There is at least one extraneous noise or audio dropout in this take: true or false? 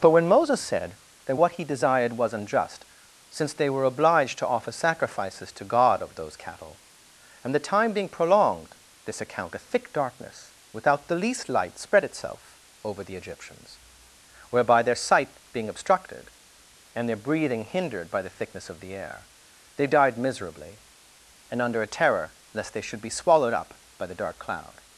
false